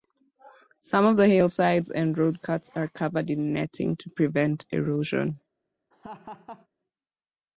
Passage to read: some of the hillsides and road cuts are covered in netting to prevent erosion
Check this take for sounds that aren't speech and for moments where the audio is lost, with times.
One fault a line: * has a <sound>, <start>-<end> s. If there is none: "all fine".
* has a laugh, 5.9-6.7 s